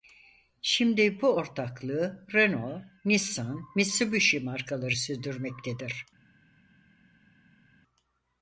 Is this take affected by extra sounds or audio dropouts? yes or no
no